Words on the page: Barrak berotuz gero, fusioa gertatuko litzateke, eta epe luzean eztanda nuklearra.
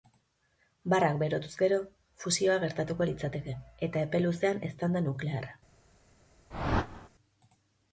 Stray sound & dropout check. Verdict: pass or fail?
fail